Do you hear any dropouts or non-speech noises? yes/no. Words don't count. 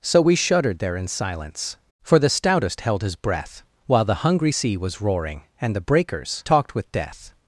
no